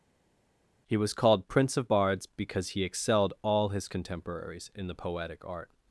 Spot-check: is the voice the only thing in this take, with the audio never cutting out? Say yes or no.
yes